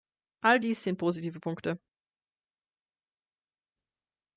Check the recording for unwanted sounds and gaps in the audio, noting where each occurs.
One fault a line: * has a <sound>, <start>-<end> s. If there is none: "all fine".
all fine